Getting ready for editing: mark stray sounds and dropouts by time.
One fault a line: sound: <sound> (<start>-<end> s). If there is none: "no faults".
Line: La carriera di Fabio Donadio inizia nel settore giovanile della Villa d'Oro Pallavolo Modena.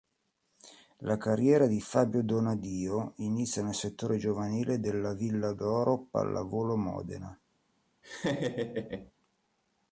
sound: laugh (8.0-9.1 s)